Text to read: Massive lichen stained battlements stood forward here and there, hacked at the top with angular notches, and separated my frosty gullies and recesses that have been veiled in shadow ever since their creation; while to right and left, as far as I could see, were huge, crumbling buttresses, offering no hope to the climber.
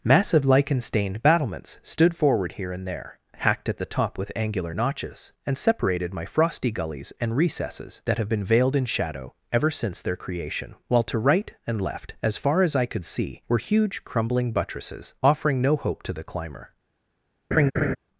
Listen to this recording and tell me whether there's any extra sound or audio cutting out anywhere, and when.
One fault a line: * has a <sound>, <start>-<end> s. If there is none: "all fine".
* has a laugh, 17.5-18.0 s